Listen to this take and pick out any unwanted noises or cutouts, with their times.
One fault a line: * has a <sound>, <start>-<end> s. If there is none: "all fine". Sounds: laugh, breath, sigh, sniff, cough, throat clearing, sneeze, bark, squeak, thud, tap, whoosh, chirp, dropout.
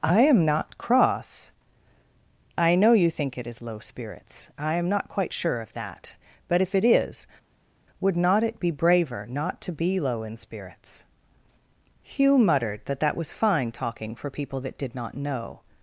all fine